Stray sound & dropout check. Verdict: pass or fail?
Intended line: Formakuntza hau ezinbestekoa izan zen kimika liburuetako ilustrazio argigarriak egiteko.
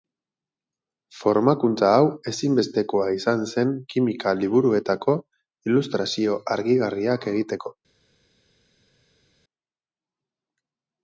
pass